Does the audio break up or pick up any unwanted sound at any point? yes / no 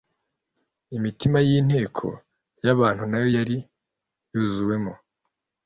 no